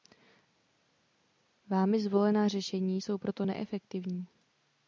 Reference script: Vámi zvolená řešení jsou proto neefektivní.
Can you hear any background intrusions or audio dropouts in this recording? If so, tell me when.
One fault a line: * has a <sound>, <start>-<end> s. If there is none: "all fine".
all fine